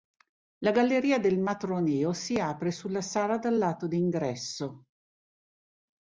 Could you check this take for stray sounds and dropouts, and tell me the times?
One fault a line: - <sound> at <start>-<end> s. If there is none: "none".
none